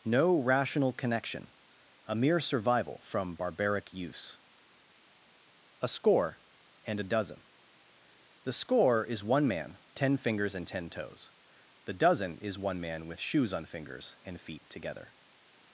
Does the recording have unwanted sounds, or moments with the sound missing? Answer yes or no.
no